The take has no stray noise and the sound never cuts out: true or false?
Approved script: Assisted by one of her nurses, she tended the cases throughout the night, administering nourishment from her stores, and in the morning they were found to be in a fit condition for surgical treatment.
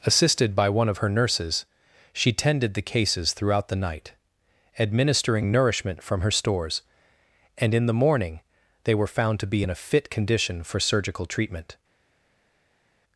true